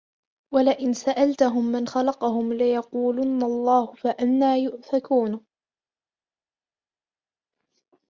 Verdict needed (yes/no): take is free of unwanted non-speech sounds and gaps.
yes